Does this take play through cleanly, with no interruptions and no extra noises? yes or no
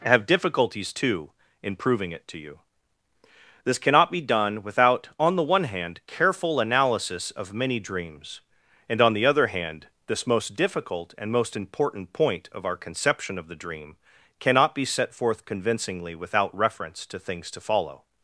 yes